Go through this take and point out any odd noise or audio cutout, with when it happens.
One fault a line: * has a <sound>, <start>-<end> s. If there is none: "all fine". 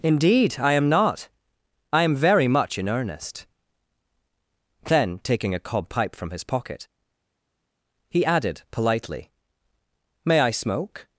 all fine